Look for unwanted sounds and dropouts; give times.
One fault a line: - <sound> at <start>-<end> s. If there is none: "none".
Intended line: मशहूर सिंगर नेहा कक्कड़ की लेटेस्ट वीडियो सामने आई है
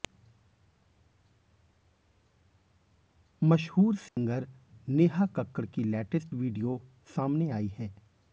- dropout at 4.1-4.2 s